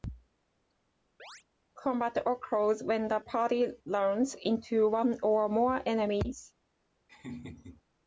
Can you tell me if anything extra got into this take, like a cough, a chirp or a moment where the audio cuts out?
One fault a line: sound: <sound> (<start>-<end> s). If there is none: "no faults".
sound: chirp (1.2-1.4 s)
sound: laugh (7.1-7.8 s)